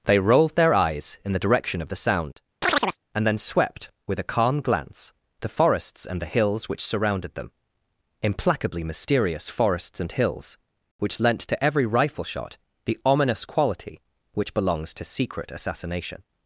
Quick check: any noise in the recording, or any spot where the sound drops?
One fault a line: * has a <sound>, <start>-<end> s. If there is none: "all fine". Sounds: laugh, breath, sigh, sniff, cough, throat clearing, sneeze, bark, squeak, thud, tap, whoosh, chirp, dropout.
* has a chirp, 2.6-3.0 s